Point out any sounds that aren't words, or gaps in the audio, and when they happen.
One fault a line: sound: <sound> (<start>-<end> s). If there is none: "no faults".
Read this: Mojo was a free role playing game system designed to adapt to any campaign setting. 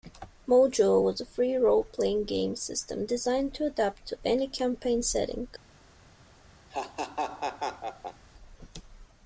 sound: laugh (6.7-8.3 s)